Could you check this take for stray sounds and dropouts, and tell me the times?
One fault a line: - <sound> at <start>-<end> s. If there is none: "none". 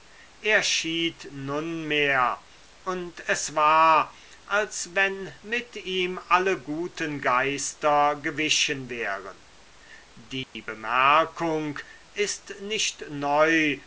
- dropout at 10.4-10.6 s